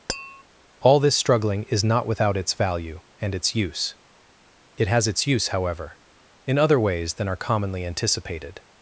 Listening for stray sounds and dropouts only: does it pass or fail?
fail